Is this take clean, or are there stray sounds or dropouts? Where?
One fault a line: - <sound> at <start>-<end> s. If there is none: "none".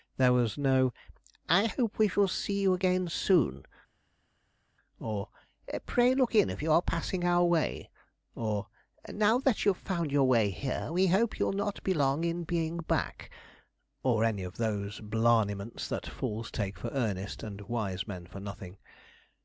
none